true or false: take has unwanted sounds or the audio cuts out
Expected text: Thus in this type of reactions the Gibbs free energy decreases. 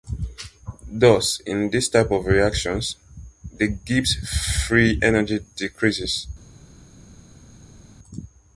false